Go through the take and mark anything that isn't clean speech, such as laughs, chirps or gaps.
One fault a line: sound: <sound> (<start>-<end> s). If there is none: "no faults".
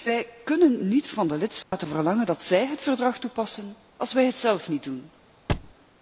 sound: dropout (1.6-1.7 s)
sound: thud (5.5-5.7 s)